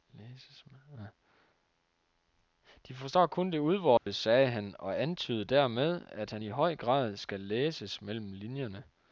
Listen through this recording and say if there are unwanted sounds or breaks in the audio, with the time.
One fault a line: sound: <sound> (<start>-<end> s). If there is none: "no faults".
sound: dropout (4.0-4.1 s)